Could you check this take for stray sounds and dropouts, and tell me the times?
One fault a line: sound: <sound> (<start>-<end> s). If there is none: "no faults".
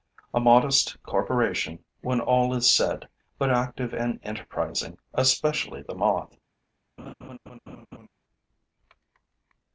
sound: laugh (7.0-8.1 s)